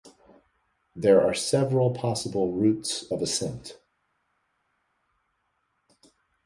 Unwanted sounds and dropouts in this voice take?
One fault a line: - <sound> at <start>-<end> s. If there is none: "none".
none